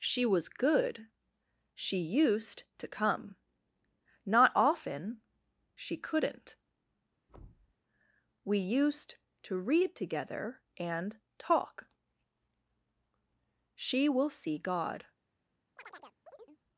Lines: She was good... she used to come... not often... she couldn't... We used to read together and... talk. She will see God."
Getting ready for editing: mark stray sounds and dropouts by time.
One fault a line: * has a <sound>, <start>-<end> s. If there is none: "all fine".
* has a thud, 7.3-7.7 s
* has a chirp, 15.8-16.6 s